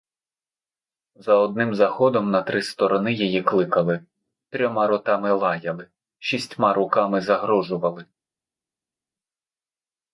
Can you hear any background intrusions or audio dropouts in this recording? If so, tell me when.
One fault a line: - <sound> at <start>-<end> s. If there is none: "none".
none